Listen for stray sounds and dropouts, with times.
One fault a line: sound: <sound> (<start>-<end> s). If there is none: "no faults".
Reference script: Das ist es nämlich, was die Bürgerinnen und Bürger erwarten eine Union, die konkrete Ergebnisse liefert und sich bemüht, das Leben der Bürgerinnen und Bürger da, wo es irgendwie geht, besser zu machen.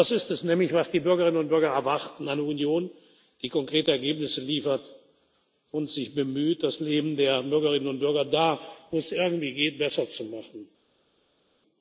no faults